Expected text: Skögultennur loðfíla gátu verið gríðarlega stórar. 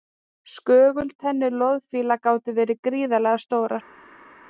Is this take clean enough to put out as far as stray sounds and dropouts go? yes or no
yes